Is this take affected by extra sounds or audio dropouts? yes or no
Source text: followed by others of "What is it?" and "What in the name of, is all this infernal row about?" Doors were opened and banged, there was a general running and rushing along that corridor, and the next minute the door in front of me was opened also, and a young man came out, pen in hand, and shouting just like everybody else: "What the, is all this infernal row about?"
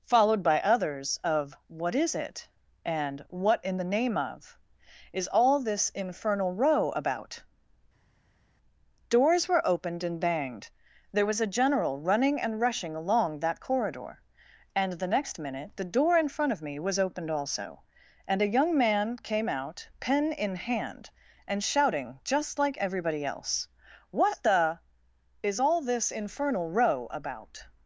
no